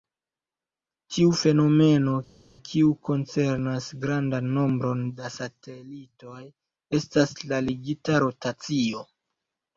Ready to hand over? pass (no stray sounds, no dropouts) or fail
pass